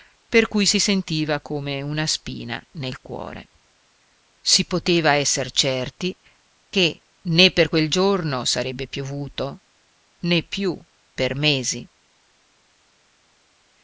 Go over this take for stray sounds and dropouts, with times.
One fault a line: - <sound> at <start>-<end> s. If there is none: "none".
none